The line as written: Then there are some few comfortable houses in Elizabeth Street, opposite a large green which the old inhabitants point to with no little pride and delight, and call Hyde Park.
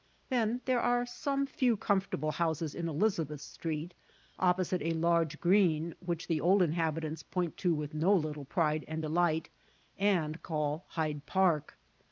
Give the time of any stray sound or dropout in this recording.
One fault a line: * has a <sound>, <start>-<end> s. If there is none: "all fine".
all fine